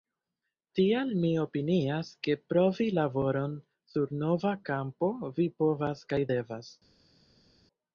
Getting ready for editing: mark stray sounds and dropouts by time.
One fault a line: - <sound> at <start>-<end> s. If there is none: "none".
none